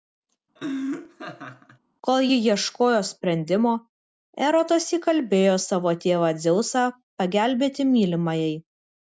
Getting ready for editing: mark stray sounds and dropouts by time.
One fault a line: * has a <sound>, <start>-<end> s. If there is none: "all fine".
* has a laugh, 0.6-1.8 s